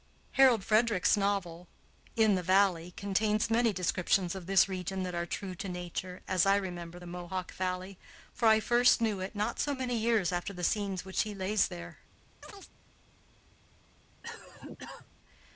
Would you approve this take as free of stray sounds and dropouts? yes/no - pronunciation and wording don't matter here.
no